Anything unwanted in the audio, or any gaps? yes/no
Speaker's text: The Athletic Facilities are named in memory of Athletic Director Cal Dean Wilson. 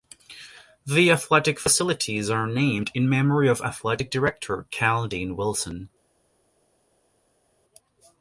no